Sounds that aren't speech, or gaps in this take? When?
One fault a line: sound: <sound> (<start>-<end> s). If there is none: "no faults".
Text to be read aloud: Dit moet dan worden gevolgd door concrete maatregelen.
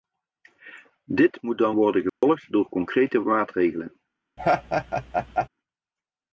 sound: dropout (2.1-2.2 s)
sound: laugh (4.4-5.5 s)